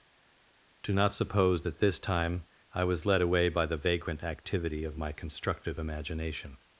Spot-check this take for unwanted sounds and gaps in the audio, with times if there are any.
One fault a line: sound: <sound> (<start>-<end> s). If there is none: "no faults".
no faults